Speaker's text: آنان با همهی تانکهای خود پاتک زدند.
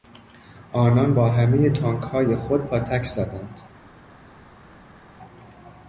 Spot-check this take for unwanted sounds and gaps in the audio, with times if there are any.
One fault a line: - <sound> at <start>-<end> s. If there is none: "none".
none